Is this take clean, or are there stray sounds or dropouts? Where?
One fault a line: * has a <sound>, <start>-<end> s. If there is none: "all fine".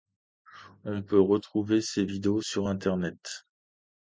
all fine